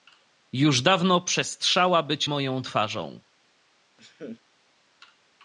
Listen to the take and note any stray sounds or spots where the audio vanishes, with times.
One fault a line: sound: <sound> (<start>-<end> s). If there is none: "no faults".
sound: laugh (4.0-4.4 s)